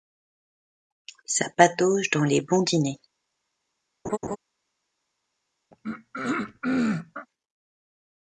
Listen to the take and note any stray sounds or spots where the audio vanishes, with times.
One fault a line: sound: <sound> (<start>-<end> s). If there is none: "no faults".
sound: laugh (4.0-4.4 s)
sound: throat clearing (5.7-7.3 s)